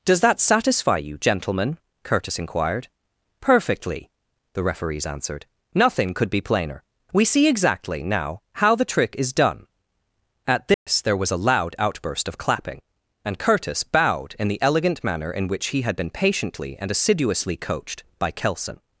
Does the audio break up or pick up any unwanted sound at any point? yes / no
yes